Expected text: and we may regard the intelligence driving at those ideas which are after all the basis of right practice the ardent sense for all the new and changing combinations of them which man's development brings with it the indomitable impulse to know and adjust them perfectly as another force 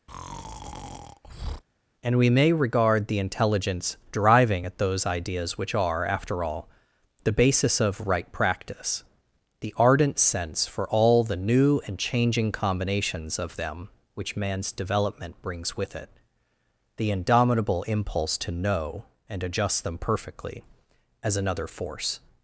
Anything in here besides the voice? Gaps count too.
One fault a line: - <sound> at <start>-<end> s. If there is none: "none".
- breath at 0.1-1.6 s